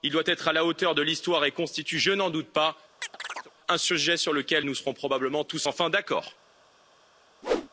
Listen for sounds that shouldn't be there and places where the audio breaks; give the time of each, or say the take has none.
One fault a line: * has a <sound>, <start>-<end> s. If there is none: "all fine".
* has a chirp, 3.0-3.5 s
* has a whoosh, 7.4-7.7 s